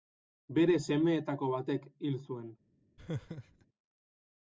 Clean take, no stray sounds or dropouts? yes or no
no